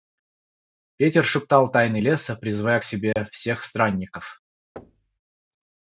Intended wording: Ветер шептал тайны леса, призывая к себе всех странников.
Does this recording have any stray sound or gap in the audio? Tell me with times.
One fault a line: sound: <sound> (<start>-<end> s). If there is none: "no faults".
sound: dropout (3.1-3.2 s)
sound: thud (4.8-5.2 s)